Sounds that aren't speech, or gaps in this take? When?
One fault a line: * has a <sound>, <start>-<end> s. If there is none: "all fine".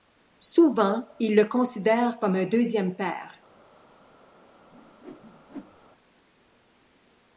* has a whoosh, 4.7-5.9 s